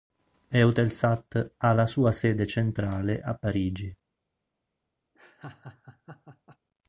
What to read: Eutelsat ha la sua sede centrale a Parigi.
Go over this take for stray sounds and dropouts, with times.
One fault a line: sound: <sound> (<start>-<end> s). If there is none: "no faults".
sound: laugh (5.1-6.6 s)